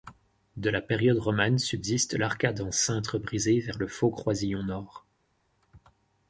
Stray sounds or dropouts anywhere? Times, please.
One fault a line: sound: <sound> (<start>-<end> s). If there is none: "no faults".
no faults